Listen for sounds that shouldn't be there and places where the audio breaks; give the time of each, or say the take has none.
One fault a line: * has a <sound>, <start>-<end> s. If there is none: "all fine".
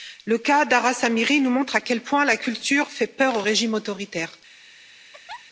* has a laugh, 5.1-5.4 s